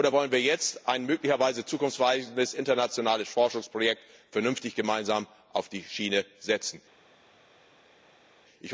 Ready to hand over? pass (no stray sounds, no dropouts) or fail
pass